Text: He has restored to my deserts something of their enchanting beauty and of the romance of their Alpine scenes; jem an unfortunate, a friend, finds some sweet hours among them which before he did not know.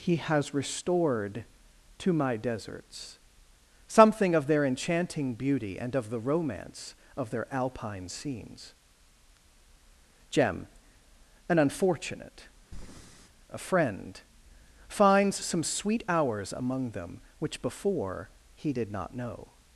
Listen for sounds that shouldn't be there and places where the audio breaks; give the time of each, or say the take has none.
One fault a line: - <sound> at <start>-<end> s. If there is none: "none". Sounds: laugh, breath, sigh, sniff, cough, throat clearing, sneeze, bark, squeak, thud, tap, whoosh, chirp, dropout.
- breath at 12.7-13.3 s